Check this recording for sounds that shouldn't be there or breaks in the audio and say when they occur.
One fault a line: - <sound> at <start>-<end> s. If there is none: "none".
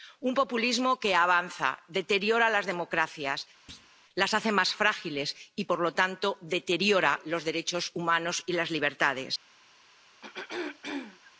- thud at 3.7-3.9 s
- throat clearing at 10.2-11.3 s